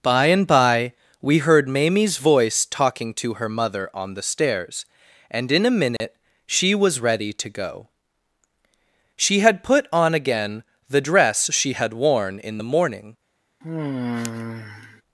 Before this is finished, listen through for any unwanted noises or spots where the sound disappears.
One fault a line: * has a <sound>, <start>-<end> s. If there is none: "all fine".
* has a dropout, 6.0-6.0 s
* has a sigh, 13.6-15.0 s